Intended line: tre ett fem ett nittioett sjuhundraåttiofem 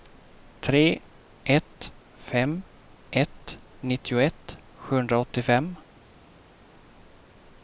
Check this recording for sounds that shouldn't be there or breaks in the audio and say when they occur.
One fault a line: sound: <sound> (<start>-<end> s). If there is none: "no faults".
no faults